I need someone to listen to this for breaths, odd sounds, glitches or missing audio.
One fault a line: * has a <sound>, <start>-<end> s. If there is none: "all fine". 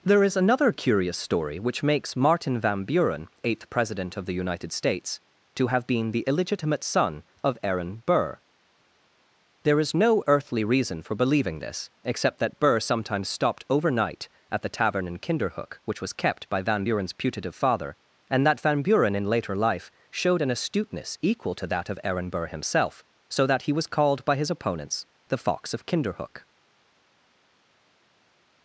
all fine